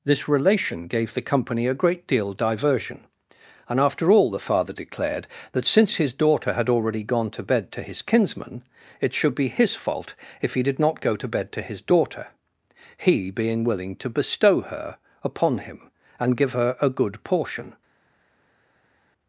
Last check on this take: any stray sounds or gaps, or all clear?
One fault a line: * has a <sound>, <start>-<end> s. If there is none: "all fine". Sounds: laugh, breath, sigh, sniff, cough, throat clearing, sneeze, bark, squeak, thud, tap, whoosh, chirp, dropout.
all fine